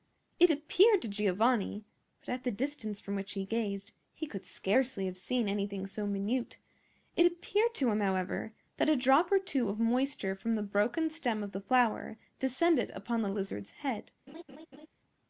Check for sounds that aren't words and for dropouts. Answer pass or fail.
fail